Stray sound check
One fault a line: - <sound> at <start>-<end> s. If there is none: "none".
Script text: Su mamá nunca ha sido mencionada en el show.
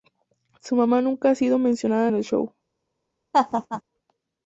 - laugh at 3.3-3.8 s